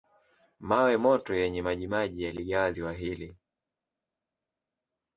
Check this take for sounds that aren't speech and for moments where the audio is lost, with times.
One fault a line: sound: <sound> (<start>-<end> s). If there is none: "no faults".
no faults